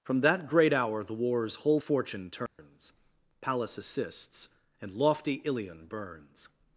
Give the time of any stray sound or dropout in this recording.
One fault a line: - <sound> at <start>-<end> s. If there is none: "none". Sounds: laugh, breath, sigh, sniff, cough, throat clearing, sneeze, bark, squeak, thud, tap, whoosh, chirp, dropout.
- dropout at 2.5-2.6 s